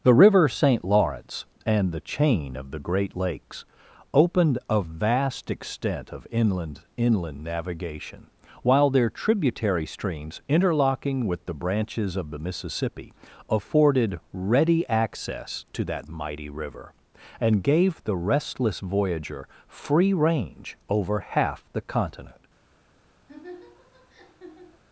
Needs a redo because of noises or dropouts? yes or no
yes